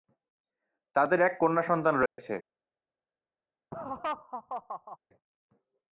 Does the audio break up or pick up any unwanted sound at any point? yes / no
yes